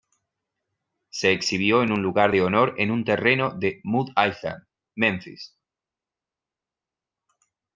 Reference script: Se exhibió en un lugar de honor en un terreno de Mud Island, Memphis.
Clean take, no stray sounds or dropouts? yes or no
yes